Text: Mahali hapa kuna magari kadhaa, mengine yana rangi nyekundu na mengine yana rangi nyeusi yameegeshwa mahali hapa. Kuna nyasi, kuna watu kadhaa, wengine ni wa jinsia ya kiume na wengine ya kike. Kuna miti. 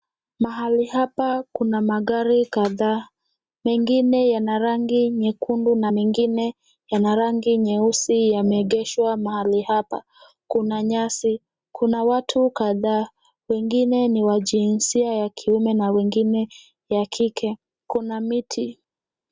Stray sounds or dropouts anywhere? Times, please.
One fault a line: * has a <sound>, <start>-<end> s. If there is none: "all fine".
all fine